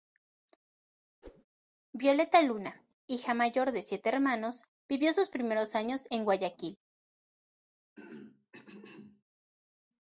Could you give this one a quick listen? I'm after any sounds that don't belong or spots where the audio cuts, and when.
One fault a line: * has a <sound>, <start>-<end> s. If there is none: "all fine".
* has a whoosh, 1.2-1.4 s
* has a throat clearing, 8.0-9.2 s